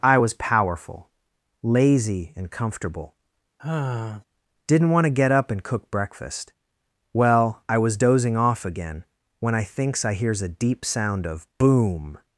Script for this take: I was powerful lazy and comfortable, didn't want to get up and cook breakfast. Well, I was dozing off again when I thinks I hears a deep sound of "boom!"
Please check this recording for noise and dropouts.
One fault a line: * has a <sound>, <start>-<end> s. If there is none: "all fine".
* has a sigh, 3.6-4.2 s